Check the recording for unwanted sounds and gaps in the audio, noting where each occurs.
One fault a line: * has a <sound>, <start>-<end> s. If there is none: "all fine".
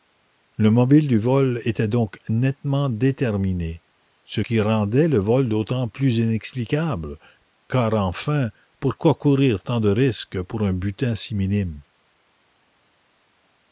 all fine